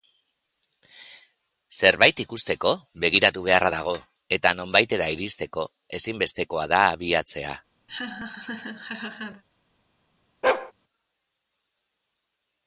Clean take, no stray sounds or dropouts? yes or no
no